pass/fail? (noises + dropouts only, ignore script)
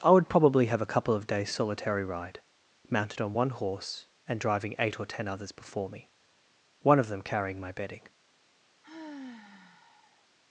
fail